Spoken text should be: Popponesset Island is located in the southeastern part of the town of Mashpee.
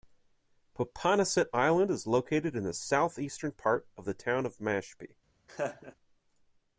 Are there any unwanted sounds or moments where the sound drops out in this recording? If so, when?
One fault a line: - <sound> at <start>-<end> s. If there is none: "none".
- laugh at 5.5-6.0 s